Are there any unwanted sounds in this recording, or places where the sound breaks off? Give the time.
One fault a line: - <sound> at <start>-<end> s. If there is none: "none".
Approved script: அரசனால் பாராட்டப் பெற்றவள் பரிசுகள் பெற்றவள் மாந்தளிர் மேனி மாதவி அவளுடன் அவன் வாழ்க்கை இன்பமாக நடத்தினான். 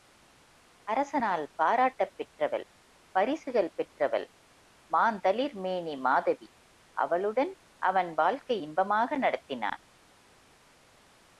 none